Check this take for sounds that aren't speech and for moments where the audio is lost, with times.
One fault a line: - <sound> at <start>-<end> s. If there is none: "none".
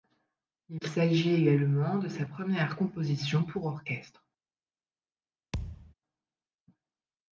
- thud at 5.5-5.9 s